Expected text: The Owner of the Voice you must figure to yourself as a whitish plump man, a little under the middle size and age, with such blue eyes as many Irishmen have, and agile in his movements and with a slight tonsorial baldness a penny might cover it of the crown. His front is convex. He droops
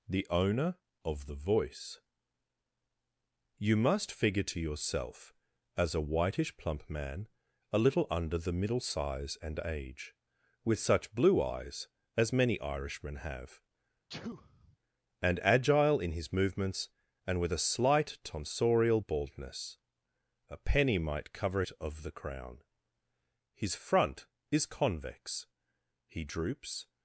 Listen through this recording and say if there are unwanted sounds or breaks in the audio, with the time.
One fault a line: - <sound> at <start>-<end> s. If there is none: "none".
- sneeze at 14.1-14.8 s